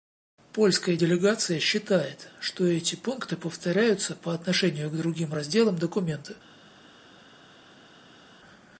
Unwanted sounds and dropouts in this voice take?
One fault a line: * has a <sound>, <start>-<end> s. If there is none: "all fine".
all fine